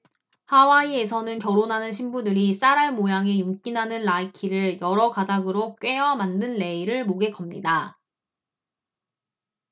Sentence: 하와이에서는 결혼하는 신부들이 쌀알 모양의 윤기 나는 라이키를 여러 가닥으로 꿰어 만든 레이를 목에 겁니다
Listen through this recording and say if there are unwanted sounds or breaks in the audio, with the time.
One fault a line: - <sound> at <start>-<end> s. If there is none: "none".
none